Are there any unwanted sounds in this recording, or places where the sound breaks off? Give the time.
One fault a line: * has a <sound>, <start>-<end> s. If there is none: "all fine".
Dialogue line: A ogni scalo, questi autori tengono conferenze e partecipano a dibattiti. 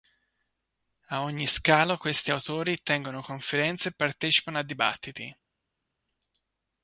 all fine